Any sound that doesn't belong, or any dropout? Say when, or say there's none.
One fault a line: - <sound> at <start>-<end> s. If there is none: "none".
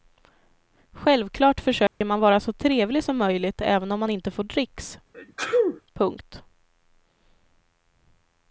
- dropout at 1.9-2.0 s
- sneeze at 5.1-5.8 s